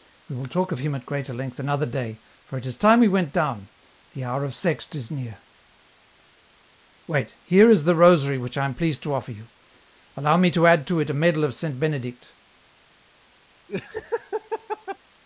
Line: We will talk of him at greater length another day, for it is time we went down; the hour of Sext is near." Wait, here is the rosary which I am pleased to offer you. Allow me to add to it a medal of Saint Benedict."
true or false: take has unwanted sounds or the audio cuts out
true